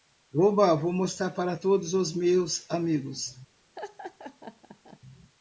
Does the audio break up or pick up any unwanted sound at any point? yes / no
yes